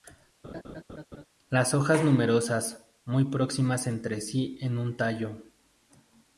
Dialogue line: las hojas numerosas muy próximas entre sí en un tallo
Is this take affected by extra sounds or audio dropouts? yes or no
yes